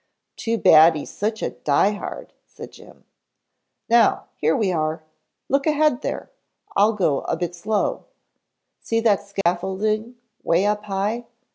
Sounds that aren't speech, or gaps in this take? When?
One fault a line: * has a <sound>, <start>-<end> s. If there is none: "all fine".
* has a dropout, 9.4-9.5 s